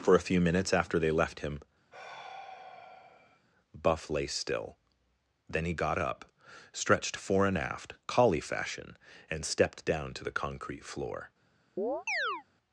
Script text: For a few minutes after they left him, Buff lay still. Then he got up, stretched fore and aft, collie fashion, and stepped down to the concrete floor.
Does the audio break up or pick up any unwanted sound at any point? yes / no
yes